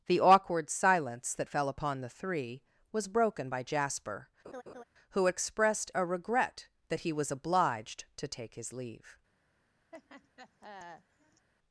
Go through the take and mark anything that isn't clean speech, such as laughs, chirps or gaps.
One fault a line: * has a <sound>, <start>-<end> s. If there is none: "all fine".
* has a laugh, 4.4-4.8 s
* has a laugh, 9.9-11.5 s